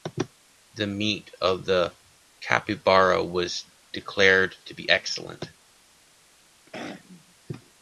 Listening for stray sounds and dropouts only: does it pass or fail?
fail